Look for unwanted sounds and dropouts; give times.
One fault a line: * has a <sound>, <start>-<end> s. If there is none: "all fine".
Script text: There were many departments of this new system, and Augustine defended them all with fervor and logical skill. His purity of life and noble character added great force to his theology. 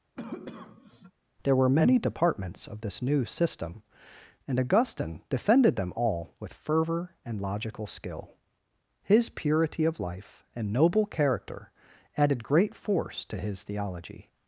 * has a cough, 0.2-1.1 s